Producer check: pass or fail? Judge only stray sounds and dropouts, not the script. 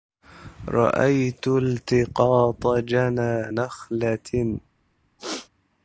fail